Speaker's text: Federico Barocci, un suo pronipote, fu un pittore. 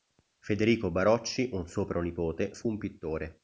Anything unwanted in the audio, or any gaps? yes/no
no